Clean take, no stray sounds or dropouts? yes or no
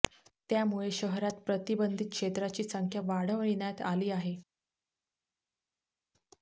yes